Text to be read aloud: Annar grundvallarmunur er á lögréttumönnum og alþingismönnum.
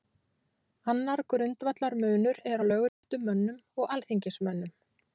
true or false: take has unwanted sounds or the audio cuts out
true